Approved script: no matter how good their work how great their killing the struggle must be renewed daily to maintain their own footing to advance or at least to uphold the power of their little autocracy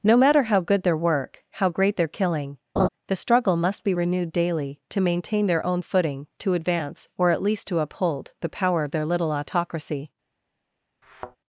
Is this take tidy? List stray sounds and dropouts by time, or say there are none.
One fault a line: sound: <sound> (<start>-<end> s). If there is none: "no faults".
sound: laugh (2.8-2.9 s)
sound: thud (11.0-11.4 s)